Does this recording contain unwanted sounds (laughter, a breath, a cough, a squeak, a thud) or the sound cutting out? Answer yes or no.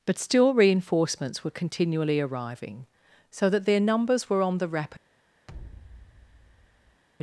yes